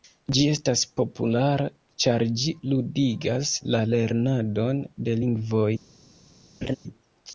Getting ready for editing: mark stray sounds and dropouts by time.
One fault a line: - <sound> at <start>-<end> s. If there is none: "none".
- laugh at 6.6-6.8 s